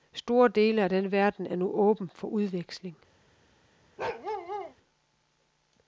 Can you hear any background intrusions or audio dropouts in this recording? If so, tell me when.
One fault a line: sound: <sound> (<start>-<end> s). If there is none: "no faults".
sound: bark (4.0-4.7 s)